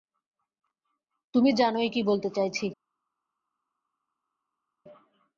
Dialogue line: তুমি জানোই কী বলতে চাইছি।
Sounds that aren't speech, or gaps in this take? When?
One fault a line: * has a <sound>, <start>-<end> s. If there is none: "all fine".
all fine